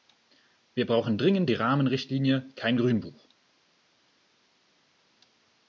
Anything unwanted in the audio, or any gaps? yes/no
no